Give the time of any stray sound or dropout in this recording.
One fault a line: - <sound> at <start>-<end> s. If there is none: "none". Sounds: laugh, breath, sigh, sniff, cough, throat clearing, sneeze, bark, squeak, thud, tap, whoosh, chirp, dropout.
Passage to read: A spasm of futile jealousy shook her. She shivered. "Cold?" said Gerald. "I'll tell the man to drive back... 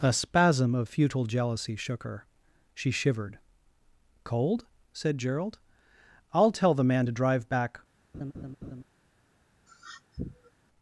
- laugh at 8.1-8.8 s
- sniff at 9.7-10.5 s